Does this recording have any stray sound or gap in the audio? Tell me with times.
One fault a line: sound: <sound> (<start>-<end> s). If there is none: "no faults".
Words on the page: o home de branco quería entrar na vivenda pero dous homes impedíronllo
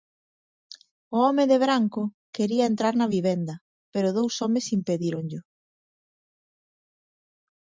no faults